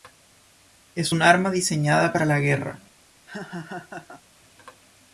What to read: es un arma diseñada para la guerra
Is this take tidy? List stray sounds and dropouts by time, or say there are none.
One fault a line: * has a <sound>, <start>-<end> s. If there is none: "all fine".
* has a laugh, 3.3-4.2 s